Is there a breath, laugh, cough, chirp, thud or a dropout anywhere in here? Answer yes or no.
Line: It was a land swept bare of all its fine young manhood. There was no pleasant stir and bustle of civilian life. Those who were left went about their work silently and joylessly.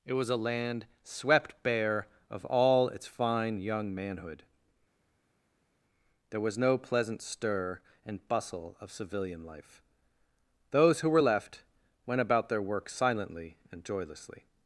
no